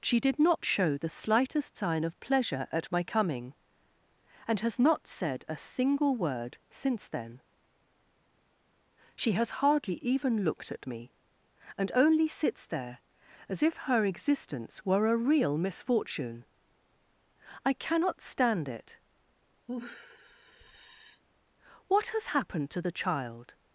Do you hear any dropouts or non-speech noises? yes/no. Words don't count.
yes